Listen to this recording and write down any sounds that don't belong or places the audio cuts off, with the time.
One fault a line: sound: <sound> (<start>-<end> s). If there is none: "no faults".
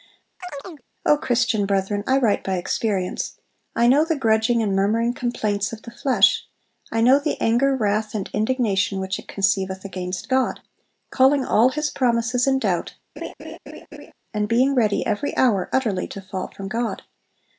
sound: chirp (0.4-0.8 s)
sound: laugh (13.2-14.1 s)